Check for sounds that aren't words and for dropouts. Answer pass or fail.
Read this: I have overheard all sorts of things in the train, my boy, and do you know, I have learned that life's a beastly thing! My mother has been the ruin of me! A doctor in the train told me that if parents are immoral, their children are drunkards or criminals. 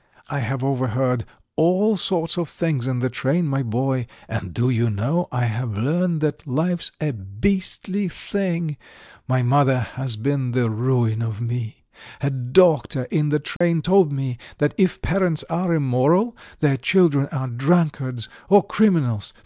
fail